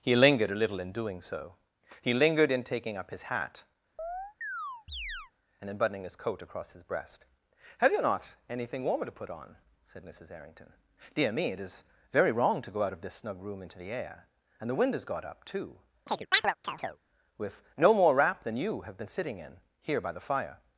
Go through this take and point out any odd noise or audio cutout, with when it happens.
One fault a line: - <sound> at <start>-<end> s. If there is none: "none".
- chirp at 4.0-5.3 s
- chirp at 16.1-17.0 s